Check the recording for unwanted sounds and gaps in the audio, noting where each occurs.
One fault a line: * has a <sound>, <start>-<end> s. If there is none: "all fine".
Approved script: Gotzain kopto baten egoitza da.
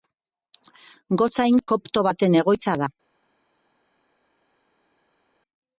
all fine